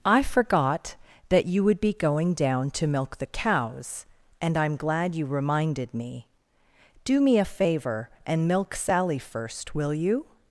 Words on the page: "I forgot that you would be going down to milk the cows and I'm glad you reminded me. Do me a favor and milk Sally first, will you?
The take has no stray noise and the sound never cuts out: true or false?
true